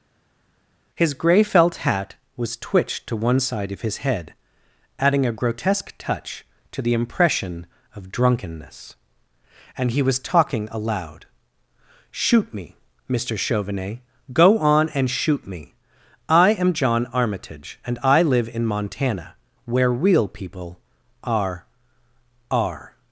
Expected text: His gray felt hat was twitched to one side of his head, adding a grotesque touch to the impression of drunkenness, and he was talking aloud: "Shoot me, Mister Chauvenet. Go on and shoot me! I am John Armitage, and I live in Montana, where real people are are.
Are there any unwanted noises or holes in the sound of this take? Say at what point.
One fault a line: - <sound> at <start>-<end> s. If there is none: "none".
none